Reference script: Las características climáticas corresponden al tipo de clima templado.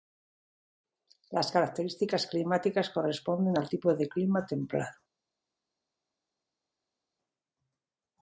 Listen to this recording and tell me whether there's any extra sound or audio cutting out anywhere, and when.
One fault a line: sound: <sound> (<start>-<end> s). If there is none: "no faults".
no faults